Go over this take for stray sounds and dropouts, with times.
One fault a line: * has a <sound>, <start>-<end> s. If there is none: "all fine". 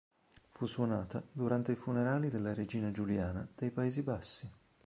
all fine